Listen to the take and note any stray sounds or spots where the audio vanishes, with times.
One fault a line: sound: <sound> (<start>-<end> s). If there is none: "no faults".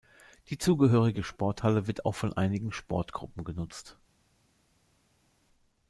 no faults